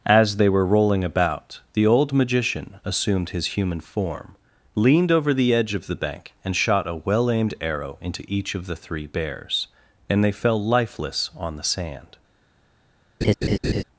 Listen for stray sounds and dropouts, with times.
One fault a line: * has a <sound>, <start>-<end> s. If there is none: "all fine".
* has a laugh, 13.2-13.8 s